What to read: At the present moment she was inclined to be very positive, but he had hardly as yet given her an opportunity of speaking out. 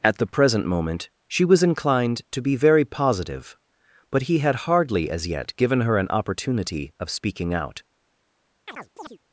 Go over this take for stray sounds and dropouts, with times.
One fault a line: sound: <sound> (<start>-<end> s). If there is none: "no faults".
sound: chirp (8.7-9.2 s)